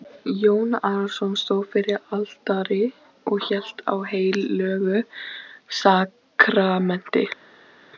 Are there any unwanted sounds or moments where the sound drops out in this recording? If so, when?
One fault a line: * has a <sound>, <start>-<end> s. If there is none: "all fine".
all fine